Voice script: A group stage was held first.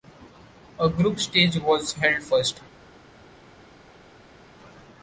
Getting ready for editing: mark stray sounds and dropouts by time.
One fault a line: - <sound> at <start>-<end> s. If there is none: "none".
none